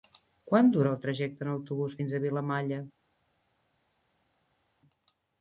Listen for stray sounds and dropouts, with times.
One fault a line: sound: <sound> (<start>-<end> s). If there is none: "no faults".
no faults